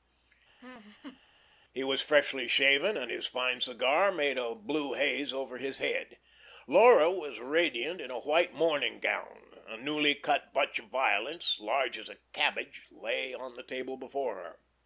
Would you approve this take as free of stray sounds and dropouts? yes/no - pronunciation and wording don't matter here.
no